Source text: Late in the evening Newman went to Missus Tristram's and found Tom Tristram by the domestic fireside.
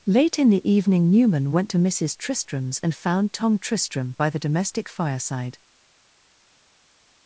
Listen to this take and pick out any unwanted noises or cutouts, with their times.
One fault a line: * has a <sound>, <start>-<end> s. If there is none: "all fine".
all fine